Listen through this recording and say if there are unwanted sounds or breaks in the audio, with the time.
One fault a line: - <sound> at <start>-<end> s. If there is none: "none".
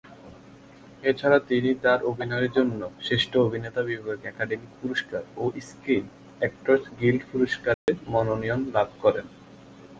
- dropout at 7.7-7.9 s